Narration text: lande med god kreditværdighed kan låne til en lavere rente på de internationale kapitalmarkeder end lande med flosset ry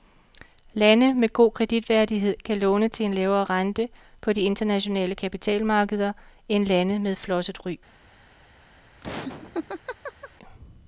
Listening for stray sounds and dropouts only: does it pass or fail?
fail